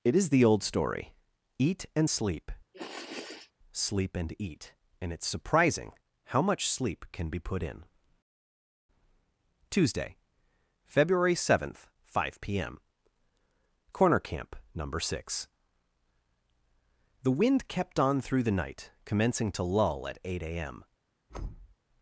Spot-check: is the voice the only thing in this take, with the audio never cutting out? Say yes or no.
no